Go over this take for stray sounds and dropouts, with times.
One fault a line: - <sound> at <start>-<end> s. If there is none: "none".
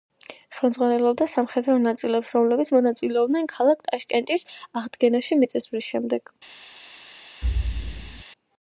- thud at 7.4-8.2 s